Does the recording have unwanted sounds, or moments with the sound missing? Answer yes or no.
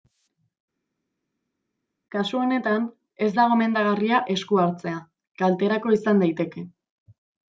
no